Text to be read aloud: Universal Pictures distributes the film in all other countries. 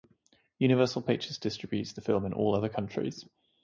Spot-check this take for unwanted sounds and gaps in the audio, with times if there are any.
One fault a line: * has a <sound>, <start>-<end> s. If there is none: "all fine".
all fine